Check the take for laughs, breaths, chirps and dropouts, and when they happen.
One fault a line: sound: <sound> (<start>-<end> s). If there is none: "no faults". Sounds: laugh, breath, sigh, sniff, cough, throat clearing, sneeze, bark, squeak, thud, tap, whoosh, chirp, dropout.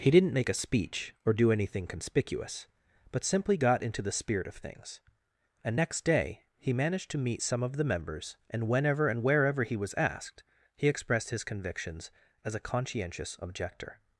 no faults